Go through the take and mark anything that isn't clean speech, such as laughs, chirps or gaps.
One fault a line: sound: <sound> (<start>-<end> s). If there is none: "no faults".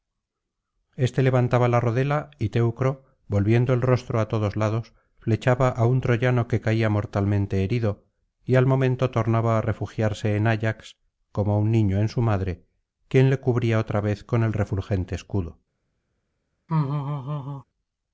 sound: laugh (16.7-17.6 s)